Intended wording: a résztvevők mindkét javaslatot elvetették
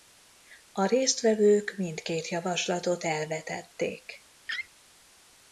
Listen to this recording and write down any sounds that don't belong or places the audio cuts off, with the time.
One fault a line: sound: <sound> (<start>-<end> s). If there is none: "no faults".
sound: laugh (4.5-4.7 s)